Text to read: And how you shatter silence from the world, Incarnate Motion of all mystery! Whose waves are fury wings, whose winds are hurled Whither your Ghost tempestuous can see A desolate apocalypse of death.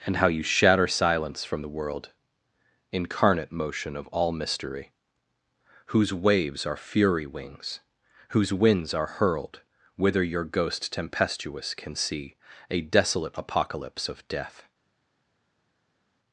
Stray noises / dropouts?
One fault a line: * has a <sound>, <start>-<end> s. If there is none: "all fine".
all fine